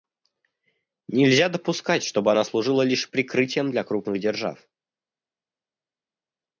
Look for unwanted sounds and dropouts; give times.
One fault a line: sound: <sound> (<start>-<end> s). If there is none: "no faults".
no faults